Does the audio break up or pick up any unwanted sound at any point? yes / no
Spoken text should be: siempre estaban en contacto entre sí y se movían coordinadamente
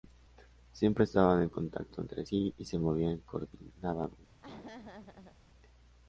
yes